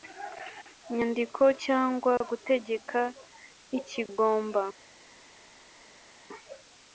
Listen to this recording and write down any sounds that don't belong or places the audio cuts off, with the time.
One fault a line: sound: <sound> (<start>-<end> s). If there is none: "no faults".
no faults